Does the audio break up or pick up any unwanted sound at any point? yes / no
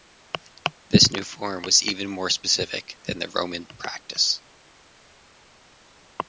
no